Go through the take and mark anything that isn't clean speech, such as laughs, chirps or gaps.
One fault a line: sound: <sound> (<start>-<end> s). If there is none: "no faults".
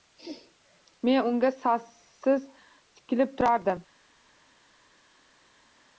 no faults